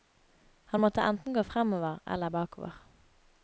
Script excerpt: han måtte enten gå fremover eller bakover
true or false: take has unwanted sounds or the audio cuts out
false